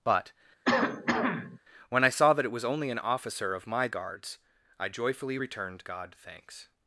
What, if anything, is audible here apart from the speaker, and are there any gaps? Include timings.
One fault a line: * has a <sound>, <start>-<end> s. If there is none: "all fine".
* has a cough, 0.6-1.6 s